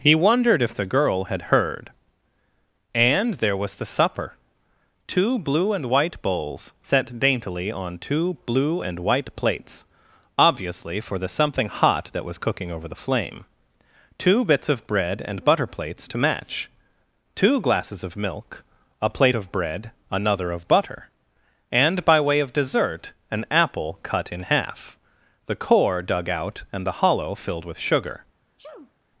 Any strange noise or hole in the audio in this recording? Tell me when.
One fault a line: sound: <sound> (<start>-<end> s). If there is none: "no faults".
sound: sneeze (28.6-28.9 s)